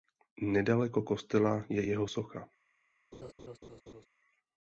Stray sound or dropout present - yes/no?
yes